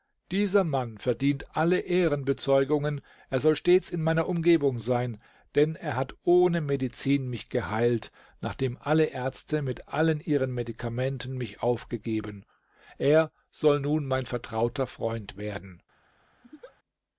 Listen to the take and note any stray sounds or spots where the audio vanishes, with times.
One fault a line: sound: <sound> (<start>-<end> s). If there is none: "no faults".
sound: laugh (16.4-16.8 s)